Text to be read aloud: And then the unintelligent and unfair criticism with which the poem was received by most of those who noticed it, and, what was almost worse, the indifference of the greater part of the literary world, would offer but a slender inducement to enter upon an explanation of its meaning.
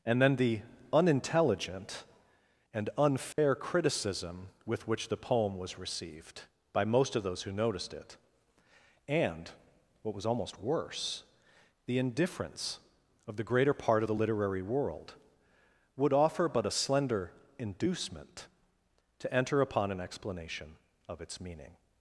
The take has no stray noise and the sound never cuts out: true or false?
false